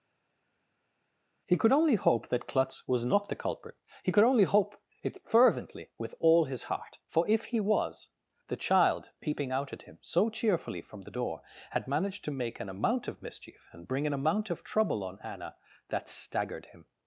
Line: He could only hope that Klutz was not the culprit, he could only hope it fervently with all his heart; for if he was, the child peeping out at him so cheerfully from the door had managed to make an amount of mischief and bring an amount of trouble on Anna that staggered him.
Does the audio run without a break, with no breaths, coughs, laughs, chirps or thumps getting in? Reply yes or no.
yes